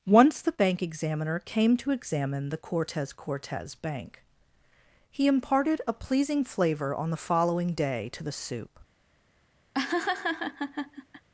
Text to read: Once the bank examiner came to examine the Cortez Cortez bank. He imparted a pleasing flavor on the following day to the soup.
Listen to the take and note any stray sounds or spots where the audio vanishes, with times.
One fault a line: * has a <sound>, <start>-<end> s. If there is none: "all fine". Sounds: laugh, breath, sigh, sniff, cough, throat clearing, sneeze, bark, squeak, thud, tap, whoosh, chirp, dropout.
* has a laugh, 9.7-11.3 s